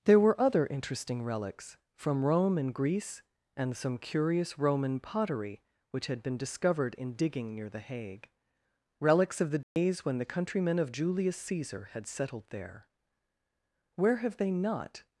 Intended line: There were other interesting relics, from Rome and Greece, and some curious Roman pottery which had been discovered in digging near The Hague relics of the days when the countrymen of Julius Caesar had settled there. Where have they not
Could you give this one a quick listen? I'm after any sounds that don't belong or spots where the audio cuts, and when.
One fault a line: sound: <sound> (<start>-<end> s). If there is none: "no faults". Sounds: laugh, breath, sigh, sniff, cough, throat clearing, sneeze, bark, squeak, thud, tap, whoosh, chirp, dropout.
sound: dropout (9.6-9.8 s)